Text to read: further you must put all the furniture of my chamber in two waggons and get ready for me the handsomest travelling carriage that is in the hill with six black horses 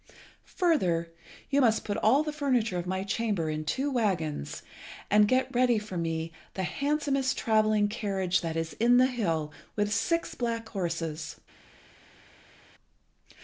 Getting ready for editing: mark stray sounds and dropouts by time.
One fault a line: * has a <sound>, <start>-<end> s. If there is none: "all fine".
all fine